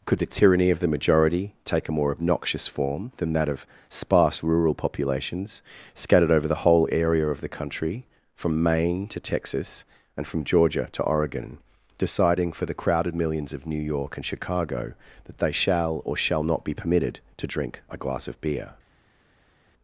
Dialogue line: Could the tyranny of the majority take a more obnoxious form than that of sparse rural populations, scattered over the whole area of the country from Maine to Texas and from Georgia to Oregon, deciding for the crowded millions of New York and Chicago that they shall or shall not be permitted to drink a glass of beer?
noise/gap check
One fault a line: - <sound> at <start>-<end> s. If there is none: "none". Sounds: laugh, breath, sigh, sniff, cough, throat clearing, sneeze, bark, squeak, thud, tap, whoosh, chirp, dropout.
none